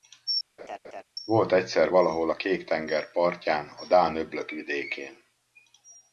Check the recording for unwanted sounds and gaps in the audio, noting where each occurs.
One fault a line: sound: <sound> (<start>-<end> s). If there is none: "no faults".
sound: laugh (0.6-1.0 s)